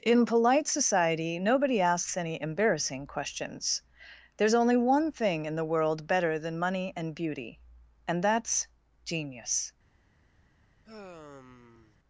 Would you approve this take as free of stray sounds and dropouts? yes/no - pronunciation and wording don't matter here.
no